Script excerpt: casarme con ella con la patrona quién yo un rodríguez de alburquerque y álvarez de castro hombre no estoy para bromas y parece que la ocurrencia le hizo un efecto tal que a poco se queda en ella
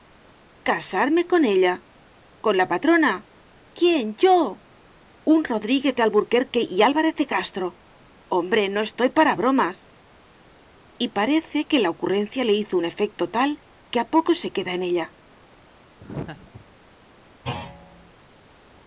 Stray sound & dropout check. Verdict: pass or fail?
fail